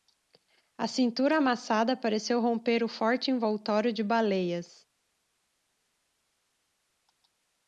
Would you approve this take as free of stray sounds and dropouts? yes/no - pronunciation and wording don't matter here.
yes